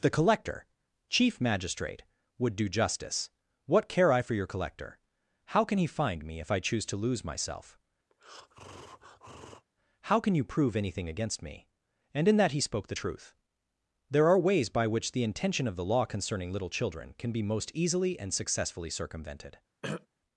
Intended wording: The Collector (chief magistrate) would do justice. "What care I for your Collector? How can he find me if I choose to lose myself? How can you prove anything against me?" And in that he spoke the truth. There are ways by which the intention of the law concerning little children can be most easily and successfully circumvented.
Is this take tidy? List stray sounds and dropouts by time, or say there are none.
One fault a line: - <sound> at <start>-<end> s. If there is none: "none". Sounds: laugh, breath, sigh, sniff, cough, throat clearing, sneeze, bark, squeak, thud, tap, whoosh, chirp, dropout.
- breath at 8.1-9.7 s
- throat clearing at 19.8-20.1 s